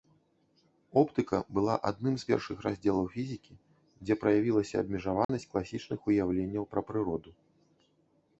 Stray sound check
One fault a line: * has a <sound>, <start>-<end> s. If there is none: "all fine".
* has a dropout, 5.2-5.3 s